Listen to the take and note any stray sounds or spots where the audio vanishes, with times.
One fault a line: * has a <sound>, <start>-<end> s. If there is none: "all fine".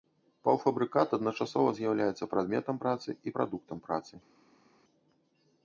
all fine